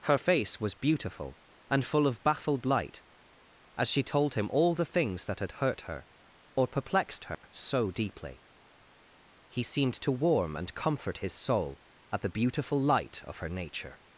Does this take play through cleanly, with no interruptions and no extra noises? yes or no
no